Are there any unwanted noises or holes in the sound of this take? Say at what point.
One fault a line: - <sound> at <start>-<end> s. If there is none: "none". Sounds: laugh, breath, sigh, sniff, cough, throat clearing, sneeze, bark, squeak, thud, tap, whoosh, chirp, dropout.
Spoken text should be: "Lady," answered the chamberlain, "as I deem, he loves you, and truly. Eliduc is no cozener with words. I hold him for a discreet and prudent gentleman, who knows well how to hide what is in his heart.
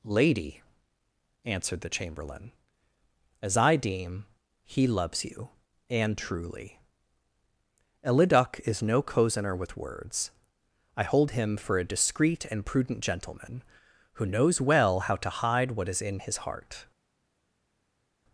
none